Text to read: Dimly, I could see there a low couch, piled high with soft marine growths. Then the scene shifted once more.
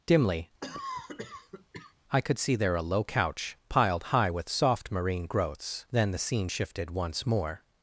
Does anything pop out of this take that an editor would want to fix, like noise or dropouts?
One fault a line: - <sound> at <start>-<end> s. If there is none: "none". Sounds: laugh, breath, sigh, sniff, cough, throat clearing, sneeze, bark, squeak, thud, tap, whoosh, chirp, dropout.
- cough at 0.6-1.9 s